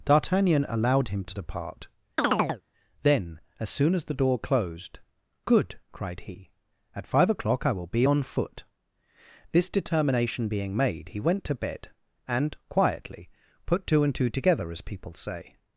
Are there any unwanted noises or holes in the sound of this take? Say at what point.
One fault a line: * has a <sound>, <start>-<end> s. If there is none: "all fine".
* has a chirp, 2.2-2.6 s